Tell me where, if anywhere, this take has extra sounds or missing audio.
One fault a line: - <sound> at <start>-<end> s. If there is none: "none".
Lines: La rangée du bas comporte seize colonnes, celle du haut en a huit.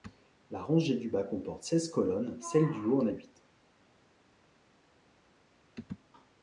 none